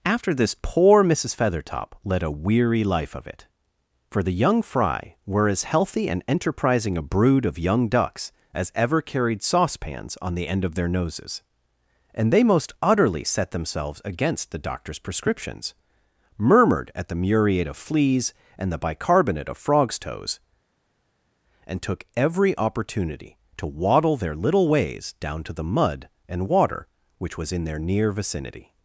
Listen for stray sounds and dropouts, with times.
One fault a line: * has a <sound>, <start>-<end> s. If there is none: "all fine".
all fine